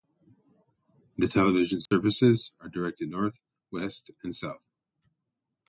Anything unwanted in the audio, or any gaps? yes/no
yes